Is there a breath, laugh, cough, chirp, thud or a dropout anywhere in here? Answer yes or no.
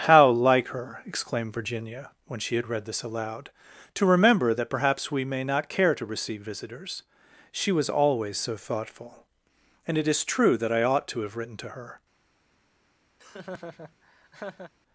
yes